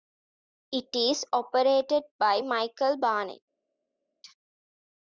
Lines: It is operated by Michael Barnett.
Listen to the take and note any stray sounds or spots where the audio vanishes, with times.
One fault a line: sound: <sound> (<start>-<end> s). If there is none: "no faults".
no faults